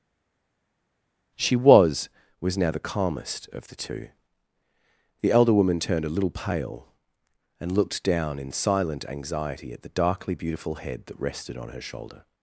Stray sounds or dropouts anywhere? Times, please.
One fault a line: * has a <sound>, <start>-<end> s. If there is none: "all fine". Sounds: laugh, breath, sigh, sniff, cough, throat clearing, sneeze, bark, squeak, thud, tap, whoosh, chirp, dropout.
all fine